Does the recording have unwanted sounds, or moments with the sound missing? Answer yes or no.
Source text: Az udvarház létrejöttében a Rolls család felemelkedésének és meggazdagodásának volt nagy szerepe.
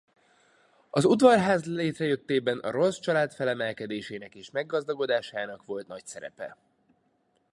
no